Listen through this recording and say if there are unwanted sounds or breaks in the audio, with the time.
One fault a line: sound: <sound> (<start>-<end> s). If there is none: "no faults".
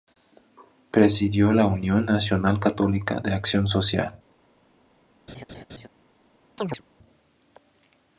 sound: laugh (5.3-5.9 s)
sound: chirp (6.6-6.8 s)